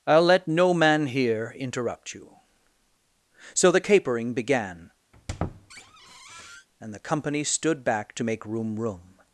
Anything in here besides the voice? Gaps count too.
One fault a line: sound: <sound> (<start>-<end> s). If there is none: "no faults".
sound: squeak (5.1-6.7 s)